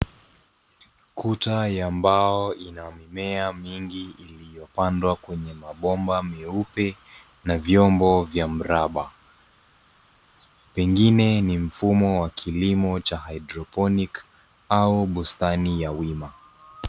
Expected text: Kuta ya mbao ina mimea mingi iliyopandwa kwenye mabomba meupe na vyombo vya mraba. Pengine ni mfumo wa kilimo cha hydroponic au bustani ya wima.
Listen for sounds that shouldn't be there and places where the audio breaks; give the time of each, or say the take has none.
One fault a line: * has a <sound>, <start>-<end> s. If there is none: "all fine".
all fine